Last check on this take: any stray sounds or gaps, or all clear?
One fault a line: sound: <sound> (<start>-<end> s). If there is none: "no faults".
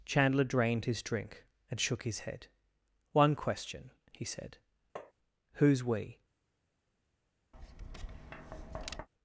sound: tap (5.0-5.1 s)
sound: tap (7.5-9.1 s)